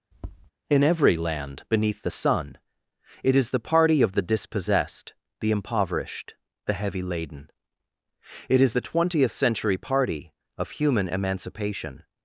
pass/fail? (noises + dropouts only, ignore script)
fail